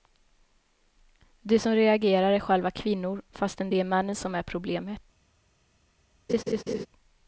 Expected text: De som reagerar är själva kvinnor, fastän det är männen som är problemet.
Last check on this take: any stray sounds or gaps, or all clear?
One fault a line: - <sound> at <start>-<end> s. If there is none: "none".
- laugh at 6.3-6.9 s